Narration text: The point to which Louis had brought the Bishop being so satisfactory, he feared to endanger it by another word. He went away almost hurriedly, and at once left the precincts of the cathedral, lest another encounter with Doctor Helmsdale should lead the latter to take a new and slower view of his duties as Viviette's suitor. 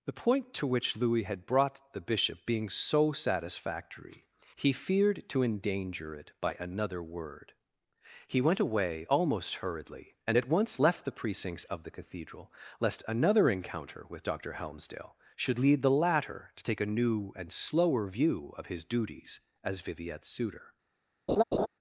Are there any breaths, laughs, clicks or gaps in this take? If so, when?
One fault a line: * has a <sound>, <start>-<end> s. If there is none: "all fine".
* has a laugh, 21.3-21.7 s